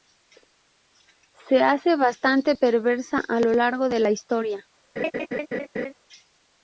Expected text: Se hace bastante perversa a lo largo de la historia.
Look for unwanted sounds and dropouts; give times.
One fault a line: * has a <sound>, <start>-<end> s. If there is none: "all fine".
* has a laugh, 5.0-5.9 s